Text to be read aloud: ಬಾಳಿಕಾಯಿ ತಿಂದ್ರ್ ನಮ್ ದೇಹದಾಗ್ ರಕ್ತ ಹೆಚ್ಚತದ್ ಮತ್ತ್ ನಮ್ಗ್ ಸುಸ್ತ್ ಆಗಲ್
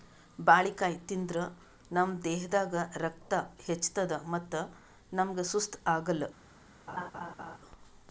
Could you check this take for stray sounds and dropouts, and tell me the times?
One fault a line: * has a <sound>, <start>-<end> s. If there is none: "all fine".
* has a laugh, 6.9-7.6 s